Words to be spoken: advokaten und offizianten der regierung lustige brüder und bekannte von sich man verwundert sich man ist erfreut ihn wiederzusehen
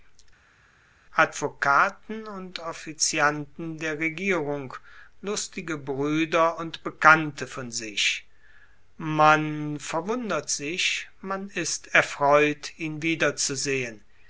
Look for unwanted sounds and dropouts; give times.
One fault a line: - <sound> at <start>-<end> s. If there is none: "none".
none